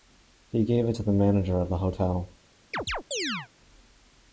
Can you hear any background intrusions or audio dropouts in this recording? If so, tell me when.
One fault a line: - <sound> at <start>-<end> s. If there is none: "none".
- chirp at 2.7-3.5 s